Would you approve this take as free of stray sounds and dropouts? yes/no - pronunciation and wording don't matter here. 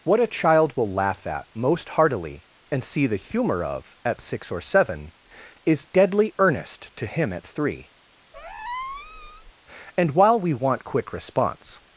no